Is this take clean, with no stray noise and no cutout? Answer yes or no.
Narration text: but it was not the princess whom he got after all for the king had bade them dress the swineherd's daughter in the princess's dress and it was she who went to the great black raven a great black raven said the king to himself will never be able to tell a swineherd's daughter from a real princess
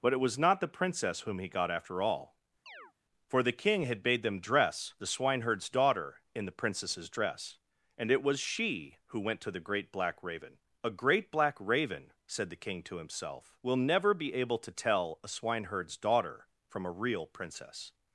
no